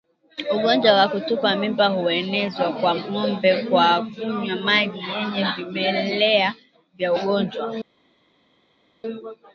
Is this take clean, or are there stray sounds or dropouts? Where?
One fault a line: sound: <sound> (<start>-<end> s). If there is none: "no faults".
no faults